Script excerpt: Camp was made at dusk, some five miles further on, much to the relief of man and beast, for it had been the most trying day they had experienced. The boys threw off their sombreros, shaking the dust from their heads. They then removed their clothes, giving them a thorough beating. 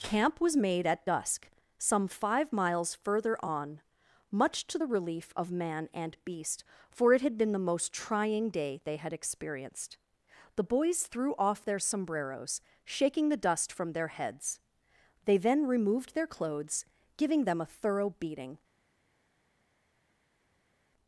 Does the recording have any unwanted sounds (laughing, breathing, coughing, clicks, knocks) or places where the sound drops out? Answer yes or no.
no